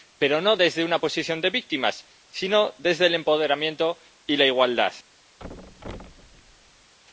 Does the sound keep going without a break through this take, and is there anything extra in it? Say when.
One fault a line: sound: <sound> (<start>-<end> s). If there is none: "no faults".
sound: thud (5.4-6.9 s)